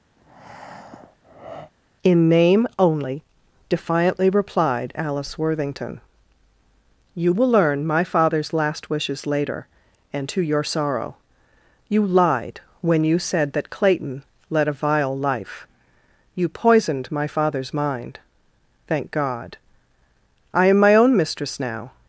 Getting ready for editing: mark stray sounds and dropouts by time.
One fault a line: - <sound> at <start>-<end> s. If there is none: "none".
- breath at 0.2-1.7 s